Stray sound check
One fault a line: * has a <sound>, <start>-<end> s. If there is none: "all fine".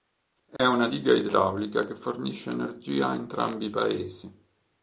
* has a dropout, 0.6-0.6 s